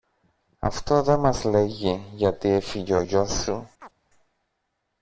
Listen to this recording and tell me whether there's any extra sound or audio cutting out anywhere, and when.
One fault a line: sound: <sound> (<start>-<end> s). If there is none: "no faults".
sound: chirp (3.8-3.9 s)